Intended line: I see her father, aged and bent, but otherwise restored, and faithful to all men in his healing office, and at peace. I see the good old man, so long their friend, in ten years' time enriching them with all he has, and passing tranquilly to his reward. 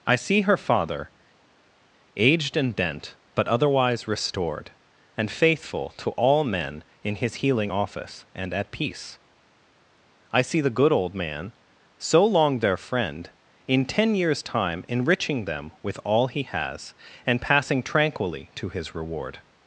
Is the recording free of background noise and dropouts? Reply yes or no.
yes